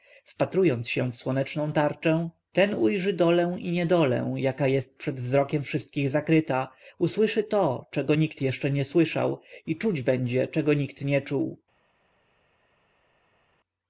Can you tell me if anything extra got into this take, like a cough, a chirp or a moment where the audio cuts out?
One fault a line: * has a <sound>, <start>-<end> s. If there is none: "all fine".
all fine